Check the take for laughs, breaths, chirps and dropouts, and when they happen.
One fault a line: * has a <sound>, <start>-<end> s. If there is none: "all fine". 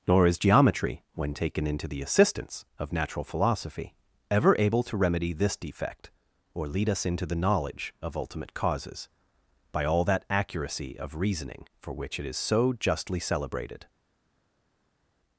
all fine